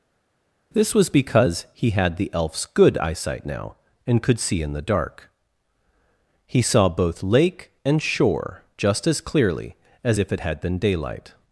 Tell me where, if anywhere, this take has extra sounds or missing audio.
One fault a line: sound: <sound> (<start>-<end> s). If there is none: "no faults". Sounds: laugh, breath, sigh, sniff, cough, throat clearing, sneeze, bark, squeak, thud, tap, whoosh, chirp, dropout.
no faults